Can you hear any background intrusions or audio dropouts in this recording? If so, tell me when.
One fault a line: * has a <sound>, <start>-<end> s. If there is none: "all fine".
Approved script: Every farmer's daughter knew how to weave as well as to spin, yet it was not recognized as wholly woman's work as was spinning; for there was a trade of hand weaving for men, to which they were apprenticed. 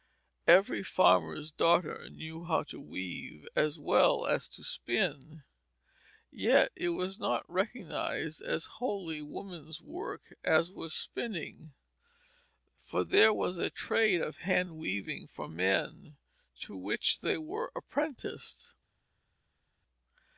all fine